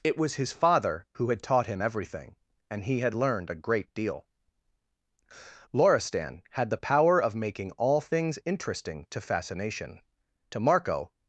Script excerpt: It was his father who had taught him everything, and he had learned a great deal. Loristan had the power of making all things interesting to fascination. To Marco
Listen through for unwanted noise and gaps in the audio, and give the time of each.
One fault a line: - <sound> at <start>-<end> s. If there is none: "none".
none